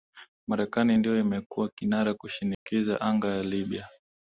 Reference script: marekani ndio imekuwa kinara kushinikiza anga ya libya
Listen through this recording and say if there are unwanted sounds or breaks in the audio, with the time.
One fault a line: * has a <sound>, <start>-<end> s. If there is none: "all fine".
* has a dropout, 2.5-2.7 s